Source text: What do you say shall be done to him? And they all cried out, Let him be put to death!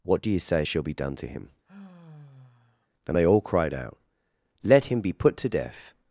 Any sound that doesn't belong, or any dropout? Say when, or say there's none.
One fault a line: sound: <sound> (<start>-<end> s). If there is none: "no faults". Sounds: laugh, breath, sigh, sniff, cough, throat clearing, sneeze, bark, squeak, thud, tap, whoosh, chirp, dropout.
sound: sigh (1.7-2.9 s)